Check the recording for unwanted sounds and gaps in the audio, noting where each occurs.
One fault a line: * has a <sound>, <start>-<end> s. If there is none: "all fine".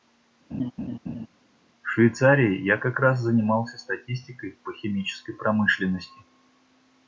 * has a laugh, 0.5-1.3 s